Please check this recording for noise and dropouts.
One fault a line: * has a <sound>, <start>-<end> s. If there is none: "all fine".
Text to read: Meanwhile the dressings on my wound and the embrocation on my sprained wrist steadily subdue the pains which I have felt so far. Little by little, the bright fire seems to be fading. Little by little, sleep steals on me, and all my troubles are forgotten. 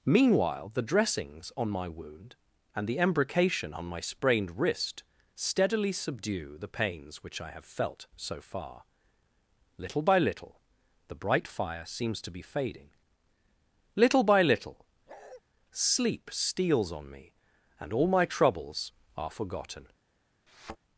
* has a bark, 15.1-15.4 s
* has a thud, 20.5-20.8 s